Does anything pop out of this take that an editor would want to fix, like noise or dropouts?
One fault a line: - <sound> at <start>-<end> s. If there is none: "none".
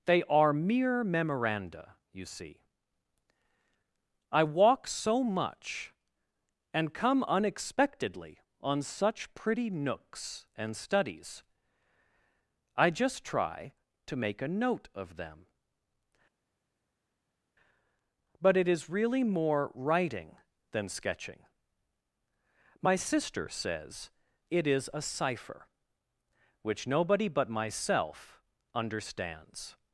none